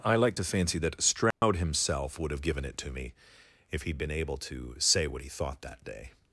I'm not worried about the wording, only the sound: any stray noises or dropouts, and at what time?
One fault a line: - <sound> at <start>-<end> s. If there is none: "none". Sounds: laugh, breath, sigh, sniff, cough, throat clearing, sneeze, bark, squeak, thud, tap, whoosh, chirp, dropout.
- dropout at 1.3-1.4 s